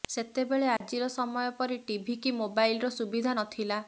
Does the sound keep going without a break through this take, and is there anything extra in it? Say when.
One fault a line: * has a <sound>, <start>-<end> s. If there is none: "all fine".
* has a dropout, 0.8-0.8 s